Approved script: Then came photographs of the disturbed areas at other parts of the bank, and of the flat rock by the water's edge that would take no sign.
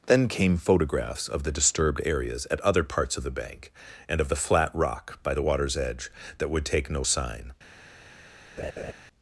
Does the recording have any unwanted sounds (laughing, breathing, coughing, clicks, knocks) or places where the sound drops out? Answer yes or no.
yes